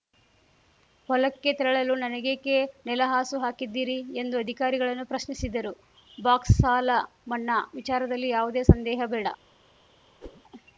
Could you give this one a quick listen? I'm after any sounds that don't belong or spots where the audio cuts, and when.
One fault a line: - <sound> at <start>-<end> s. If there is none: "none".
- whoosh at 10.2-10.4 s